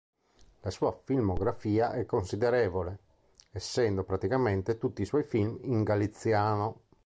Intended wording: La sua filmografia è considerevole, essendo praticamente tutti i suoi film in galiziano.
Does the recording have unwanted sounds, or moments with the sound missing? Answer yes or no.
no